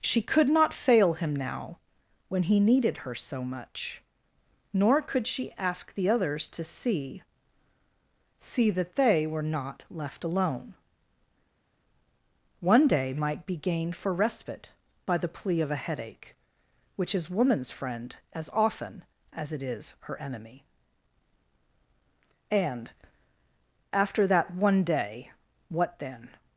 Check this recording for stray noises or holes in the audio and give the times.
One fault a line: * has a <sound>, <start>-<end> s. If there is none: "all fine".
all fine